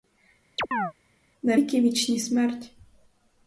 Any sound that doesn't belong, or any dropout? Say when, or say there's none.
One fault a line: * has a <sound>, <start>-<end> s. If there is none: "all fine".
* has a chirp, 0.6-0.9 s